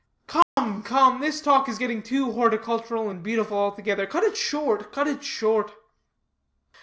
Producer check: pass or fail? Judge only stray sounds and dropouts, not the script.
fail